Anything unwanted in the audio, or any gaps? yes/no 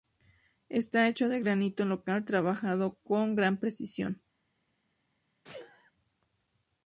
yes